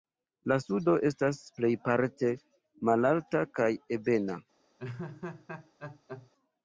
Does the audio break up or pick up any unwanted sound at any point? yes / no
yes